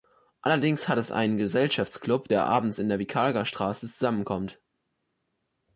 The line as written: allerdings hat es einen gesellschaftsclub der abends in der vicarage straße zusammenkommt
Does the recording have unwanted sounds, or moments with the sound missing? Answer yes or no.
no